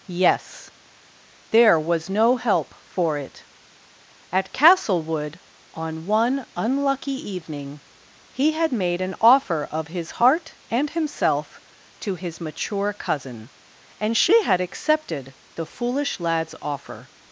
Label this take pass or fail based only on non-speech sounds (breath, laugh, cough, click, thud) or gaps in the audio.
pass